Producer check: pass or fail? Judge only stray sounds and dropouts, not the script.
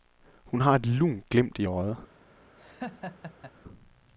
fail